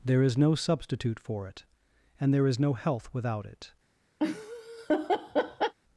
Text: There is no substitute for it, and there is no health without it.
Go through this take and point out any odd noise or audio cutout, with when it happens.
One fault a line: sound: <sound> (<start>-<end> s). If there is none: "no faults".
sound: laugh (4.2-5.7 s)